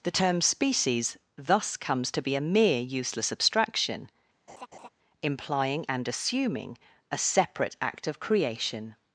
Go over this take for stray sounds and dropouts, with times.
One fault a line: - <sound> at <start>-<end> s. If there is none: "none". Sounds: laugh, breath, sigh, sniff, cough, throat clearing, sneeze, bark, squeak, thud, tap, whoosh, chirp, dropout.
- laugh at 4.5-4.9 s